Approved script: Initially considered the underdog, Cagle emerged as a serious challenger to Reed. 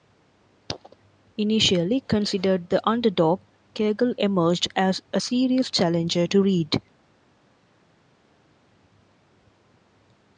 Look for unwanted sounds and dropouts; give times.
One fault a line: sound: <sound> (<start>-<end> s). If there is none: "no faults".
no faults